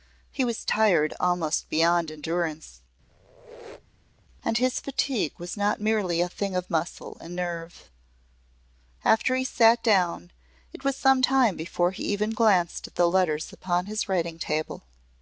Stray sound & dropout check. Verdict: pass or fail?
fail